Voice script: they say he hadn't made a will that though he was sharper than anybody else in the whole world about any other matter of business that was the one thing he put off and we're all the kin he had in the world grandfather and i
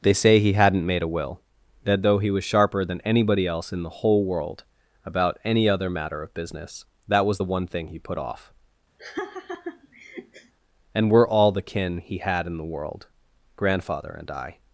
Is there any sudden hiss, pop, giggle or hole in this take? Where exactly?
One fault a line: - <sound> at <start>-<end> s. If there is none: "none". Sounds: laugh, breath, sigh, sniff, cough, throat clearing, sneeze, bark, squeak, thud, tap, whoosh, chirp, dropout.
- laugh at 9.0-10.5 s